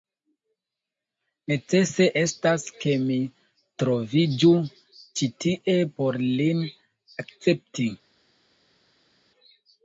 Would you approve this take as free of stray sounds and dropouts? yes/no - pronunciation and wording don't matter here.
yes